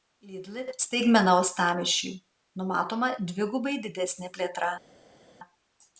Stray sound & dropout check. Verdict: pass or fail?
pass